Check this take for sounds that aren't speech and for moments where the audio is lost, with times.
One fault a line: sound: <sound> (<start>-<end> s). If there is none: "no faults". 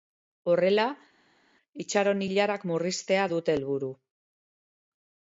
no faults